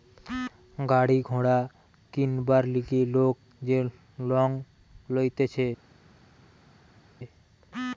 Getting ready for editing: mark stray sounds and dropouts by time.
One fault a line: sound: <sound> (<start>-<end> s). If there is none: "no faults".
no faults